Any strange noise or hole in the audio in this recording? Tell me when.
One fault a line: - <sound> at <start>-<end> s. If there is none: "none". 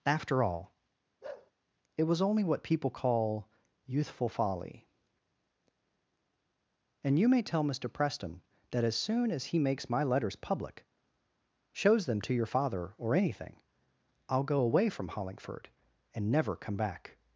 - bark at 1.2-1.5 s